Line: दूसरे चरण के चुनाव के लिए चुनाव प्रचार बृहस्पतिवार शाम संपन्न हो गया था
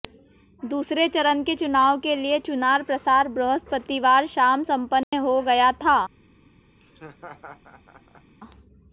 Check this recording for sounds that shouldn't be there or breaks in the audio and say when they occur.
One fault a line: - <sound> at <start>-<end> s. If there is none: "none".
- dropout at 5.0-5.1 s
- laugh at 6.8-8.4 s